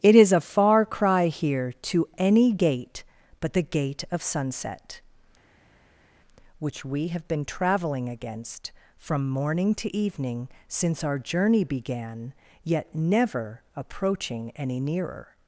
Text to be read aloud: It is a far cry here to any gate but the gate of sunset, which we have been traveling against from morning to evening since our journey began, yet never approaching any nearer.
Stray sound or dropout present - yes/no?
no